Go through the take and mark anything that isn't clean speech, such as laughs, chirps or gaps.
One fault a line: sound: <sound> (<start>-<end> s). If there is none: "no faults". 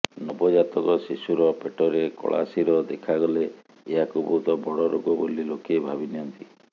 no faults